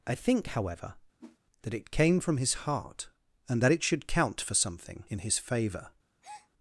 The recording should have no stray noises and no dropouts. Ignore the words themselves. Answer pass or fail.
fail